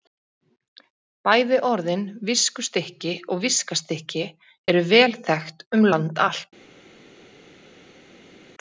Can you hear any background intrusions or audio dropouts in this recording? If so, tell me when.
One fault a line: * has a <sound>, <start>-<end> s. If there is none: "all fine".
all fine